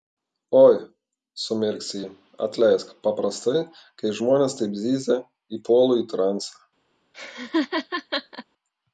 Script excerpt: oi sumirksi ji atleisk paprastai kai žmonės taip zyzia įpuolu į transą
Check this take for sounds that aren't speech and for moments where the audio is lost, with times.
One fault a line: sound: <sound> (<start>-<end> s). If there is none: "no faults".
sound: laugh (7.1-8.4 s)